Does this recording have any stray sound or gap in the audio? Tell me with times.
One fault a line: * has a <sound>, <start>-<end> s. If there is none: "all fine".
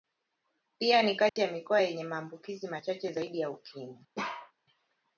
* has a dropout, 1.3-1.4 s
* has a bark, 4.2-4.5 s